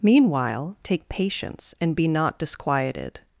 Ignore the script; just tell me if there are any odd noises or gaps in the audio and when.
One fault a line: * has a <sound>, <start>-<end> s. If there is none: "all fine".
all fine